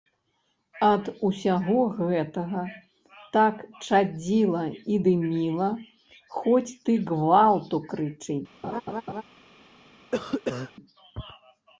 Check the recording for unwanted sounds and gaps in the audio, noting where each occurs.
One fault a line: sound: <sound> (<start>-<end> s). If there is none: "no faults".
sound: laugh (8.6-9.2 s)
sound: cough (10.1-10.7 s)